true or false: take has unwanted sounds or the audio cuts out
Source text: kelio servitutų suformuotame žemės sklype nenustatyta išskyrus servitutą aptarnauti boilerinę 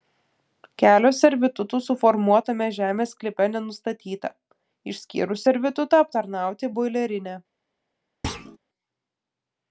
true